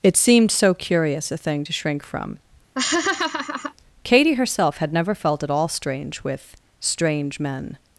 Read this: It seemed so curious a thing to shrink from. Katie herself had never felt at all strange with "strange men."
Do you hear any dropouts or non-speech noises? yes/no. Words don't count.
yes